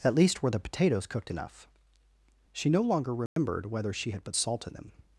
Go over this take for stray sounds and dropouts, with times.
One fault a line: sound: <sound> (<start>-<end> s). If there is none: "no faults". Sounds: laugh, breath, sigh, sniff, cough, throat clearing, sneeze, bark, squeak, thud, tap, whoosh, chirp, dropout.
sound: dropout (3.3-3.4 s)